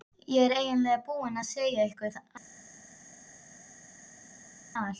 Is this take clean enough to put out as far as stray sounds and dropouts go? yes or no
yes